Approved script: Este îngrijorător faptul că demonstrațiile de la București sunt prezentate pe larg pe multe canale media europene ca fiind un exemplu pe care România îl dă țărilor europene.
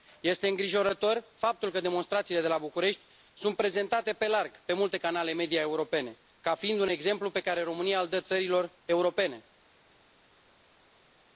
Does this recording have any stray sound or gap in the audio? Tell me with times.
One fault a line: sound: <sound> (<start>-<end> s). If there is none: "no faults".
no faults